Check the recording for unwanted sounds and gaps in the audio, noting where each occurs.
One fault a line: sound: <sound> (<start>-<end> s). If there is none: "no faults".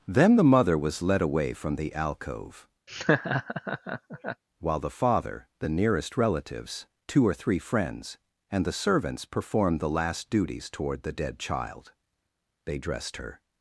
sound: laugh (2.9-4.4 s)